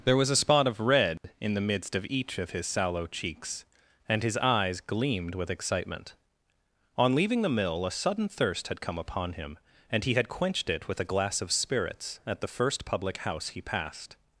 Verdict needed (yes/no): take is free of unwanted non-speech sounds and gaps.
no